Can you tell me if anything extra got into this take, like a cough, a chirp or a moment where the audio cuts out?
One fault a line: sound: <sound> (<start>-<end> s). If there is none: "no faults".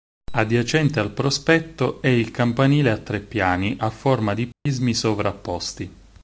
sound: dropout (4.5-4.7 s)